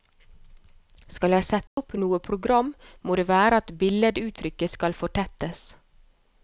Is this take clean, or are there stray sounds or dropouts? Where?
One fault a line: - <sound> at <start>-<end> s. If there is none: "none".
- dropout at 1.7-1.8 s